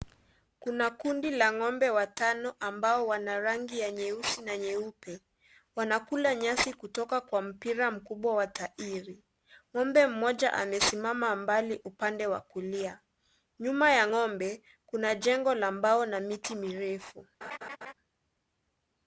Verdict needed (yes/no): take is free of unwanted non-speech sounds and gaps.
no